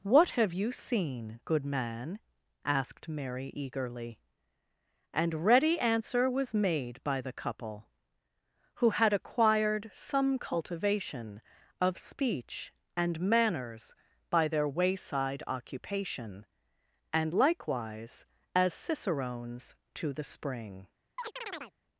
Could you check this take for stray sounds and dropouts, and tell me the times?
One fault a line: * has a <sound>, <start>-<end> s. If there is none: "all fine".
* has a chirp, 21.2-21.7 s